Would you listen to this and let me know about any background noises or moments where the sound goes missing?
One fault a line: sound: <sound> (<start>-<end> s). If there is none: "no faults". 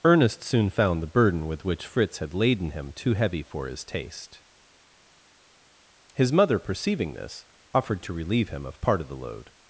no faults